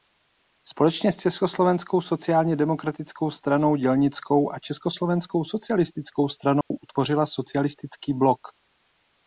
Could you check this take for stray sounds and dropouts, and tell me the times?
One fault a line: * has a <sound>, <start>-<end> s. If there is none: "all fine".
* has a dropout, 6.6-6.7 s